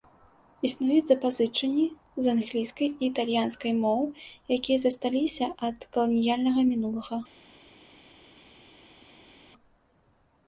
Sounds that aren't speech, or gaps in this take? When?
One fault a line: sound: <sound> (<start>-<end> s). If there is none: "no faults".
no faults